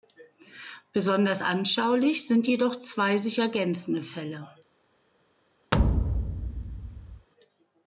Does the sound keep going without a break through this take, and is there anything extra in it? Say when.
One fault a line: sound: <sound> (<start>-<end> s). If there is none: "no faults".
sound: thud (5.7-7.3 s)